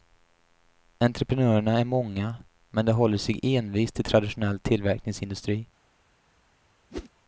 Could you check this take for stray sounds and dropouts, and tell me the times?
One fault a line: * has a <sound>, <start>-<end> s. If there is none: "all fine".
* has a whoosh, 6.9-7.1 s